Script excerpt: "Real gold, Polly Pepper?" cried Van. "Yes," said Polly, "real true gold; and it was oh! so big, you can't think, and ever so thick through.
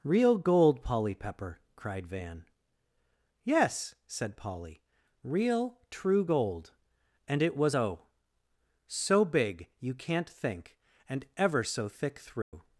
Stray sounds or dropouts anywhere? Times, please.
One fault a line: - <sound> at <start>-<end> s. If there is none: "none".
- dropout at 12.4-12.5 s